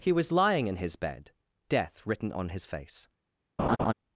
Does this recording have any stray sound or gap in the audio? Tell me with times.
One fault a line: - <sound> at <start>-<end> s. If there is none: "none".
- laugh at 3.6-3.9 s